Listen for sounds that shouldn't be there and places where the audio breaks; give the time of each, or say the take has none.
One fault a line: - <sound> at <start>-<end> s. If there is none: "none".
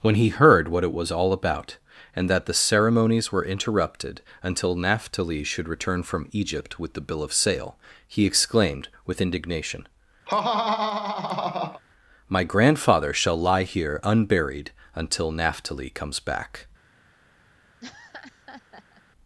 - laugh at 10.3-11.8 s
- laugh at 17.8-19.0 s